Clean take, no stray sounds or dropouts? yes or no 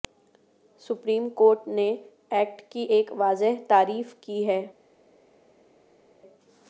yes